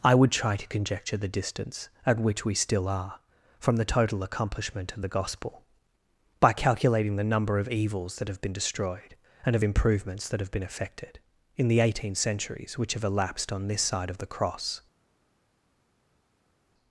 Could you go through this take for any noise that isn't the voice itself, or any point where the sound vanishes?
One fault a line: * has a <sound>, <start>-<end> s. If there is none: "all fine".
all fine